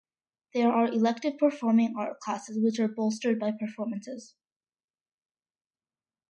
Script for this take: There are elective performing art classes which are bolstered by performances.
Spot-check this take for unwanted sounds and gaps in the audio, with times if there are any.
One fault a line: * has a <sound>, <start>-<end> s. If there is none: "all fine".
all fine